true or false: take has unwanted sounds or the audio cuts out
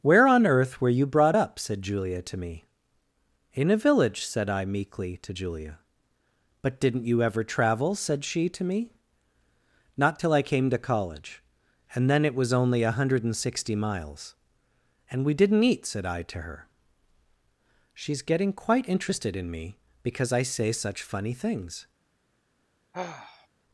true